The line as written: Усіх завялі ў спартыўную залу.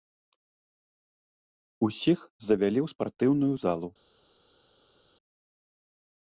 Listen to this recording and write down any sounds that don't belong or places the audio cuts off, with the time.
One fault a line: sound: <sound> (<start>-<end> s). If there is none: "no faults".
no faults